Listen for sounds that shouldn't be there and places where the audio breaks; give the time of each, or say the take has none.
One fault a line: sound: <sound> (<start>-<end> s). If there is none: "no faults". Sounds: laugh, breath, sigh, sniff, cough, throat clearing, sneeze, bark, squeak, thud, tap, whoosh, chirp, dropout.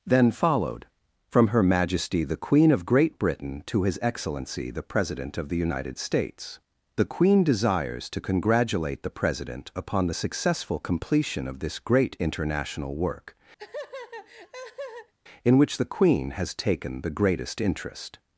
sound: laugh (13.6-15.1 s)